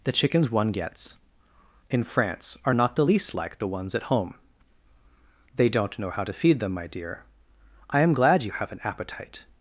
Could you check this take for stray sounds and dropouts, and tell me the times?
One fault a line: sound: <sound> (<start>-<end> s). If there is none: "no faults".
no faults